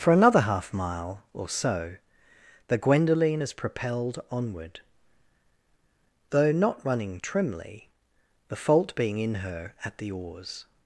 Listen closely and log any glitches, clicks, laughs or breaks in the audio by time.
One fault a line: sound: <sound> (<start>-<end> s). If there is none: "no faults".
no faults